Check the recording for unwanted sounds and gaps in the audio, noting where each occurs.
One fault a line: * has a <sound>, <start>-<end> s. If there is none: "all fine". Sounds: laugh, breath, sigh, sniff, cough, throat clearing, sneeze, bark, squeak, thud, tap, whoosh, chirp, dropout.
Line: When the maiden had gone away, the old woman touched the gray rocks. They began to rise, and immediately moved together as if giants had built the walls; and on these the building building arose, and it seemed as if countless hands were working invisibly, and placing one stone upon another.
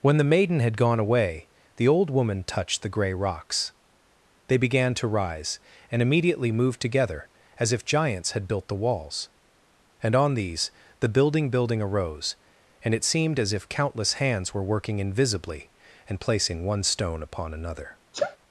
* has a sneeze, 18.1-18.4 s